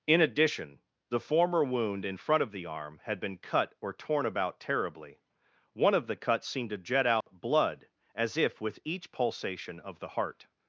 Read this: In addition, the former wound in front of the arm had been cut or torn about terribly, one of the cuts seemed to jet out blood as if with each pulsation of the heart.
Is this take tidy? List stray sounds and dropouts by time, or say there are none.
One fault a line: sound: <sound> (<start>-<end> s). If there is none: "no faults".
sound: dropout (7.2-7.3 s)